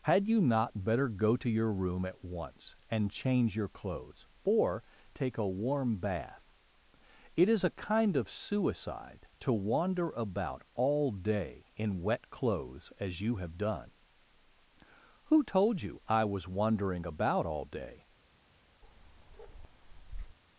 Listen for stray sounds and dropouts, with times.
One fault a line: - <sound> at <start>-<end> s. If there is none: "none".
- bark at 18.8-20.4 s